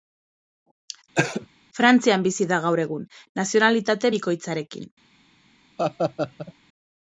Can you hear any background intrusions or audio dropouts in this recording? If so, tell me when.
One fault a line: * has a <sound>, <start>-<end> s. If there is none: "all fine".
* has a cough, 1.2-1.5 s
* has a laugh, 5.8-6.5 s